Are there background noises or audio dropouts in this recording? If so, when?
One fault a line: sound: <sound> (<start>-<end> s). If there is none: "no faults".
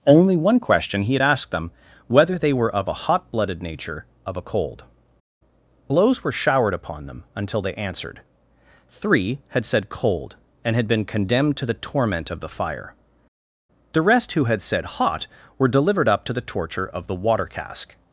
no faults